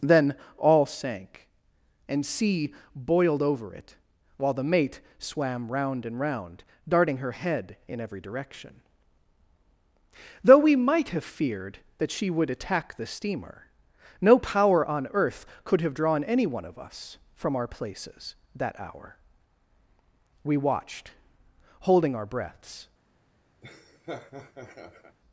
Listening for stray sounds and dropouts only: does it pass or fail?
fail